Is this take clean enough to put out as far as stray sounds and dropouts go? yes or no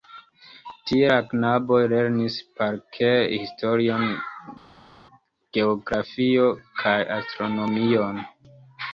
yes